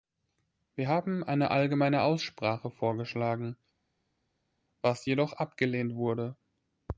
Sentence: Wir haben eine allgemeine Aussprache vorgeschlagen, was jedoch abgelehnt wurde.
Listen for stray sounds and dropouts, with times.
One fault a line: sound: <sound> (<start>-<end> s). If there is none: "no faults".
no faults